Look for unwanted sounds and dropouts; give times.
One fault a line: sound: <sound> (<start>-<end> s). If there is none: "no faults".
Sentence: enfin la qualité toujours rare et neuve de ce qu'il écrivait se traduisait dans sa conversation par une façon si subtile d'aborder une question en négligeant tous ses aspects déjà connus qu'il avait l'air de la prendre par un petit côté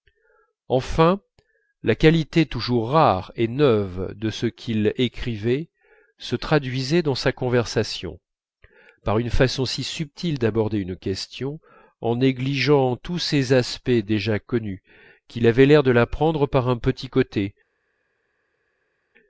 no faults